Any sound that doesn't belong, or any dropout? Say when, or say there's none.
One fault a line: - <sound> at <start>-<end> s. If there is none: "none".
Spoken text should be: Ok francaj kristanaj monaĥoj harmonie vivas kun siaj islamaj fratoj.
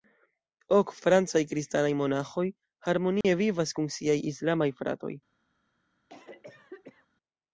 - dropout at 3.2-3.2 s
- cough at 6.1-7.1 s